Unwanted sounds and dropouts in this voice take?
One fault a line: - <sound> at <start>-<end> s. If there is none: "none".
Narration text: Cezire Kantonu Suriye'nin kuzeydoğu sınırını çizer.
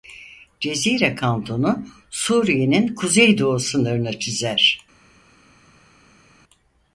none